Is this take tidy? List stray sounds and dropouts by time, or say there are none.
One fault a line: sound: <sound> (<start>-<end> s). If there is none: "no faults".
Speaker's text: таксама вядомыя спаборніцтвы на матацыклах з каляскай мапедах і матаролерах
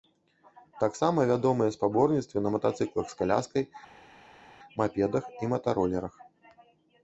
no faults